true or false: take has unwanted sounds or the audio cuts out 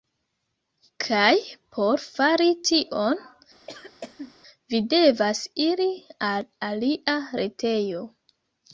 true